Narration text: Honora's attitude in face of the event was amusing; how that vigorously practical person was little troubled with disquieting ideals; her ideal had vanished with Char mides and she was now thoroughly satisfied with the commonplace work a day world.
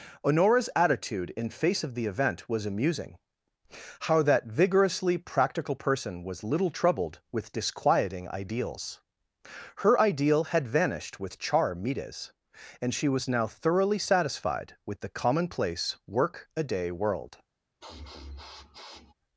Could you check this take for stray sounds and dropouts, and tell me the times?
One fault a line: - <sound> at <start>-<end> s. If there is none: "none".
- sniff at 17.8-19.1 s